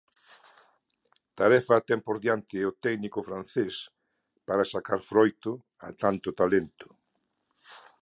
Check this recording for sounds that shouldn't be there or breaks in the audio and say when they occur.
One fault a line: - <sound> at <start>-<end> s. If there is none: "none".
none